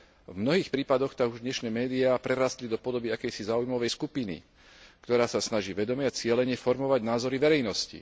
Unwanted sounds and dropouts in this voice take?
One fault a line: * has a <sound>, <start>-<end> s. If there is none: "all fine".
all fine